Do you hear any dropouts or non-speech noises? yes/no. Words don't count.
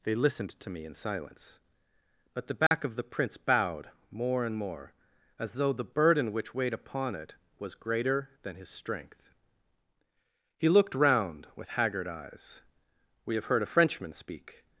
yes